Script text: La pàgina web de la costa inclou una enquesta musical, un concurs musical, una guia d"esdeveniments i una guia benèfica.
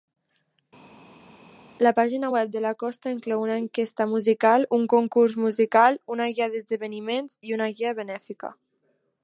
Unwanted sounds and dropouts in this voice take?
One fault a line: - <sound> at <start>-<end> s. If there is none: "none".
none